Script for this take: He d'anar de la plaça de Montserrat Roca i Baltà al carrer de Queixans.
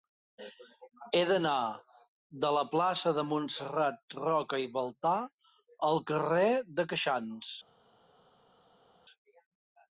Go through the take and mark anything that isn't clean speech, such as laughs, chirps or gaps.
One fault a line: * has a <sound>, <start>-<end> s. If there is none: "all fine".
all fine